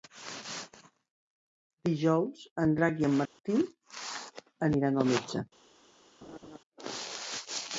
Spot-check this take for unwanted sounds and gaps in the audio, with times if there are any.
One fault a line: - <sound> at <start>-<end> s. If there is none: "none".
- dropout at 3.3-3.4 s
- laugh at 6.2-6.6 s